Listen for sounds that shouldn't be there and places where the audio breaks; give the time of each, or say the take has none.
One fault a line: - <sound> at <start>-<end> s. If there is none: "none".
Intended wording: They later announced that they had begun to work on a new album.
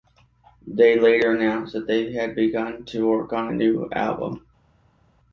none